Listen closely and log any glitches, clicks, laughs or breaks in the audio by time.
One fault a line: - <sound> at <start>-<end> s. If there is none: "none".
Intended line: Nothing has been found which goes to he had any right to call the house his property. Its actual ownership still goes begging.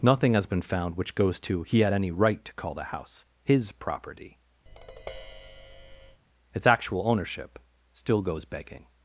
- tap at 4.7-6.2 s